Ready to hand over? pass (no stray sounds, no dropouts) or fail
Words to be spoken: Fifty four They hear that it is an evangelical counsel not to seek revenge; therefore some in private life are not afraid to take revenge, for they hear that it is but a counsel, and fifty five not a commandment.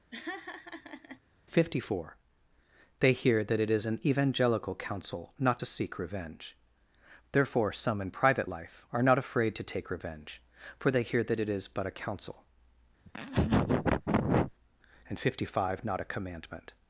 fail